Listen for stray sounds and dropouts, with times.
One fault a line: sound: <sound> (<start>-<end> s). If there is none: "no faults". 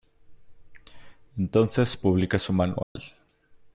sound: dropout (2.8-3.0 s)